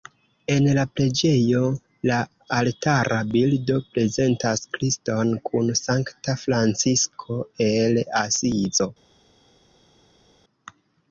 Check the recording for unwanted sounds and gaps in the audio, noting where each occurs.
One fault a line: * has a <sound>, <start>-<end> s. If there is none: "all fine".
all fine